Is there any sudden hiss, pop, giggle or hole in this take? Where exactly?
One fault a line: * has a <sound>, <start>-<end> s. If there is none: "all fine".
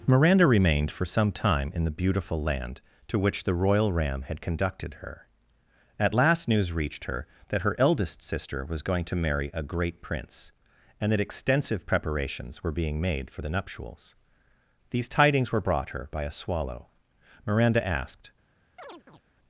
* has a chirp, 18.8-19.2 s